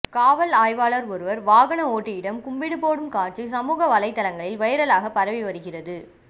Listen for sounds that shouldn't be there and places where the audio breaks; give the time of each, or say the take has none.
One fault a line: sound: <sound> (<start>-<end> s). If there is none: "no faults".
no faults